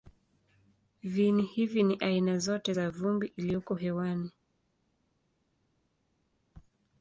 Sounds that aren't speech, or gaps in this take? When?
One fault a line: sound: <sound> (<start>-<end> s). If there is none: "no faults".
no faults